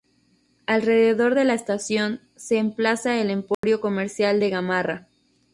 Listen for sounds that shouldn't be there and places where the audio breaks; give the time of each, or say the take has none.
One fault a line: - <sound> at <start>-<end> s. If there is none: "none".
- dropout at 3.5-3.6 s